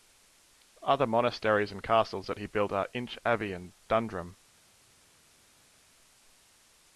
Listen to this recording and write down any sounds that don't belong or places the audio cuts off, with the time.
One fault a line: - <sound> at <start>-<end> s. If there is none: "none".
none